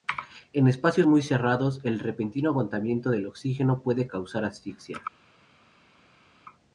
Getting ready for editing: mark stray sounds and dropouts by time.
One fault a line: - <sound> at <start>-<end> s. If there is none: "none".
none